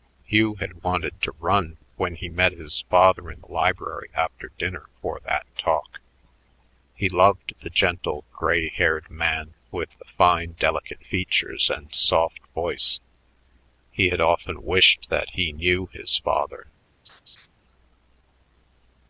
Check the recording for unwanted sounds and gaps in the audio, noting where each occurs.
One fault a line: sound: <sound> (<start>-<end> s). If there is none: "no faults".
sound: laugh (17.0-17.5 s)